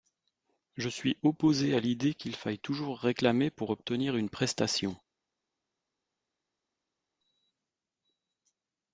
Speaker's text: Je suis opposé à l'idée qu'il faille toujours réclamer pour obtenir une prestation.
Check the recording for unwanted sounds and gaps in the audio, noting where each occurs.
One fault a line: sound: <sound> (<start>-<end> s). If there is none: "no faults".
no faults